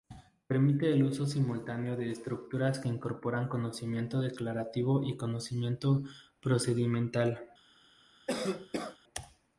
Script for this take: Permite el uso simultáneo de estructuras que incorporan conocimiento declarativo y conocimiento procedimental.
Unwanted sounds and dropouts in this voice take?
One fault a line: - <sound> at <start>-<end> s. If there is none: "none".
- cough at 8.3-9.0 s